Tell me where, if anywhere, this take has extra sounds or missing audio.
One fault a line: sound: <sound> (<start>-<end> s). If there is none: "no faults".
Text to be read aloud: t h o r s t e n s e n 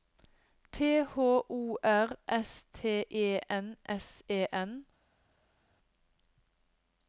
no faults